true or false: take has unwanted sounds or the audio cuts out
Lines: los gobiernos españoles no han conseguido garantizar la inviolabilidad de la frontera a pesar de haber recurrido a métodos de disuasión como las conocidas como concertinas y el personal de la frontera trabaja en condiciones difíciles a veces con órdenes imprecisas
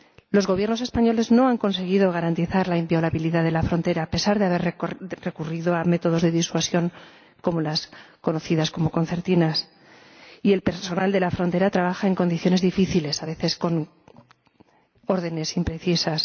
false